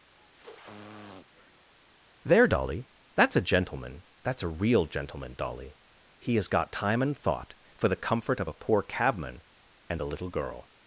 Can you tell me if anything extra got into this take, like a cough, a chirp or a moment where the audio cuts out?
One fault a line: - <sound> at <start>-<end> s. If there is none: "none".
- sniff at 0.2-1.7 s